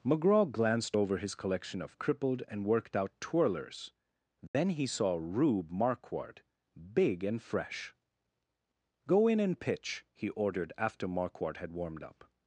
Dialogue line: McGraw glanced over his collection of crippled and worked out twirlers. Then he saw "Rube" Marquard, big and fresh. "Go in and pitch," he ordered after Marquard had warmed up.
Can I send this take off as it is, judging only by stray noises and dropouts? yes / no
no